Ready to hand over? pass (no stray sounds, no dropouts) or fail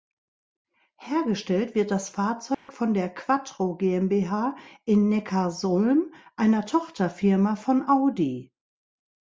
fail